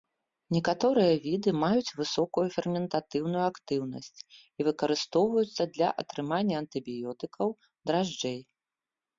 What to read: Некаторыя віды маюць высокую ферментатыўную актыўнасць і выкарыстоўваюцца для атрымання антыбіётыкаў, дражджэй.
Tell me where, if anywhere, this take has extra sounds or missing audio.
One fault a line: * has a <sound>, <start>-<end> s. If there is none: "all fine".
all fine